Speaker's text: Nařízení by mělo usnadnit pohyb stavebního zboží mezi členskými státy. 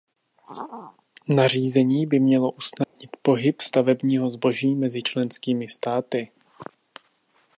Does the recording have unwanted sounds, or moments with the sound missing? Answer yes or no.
yes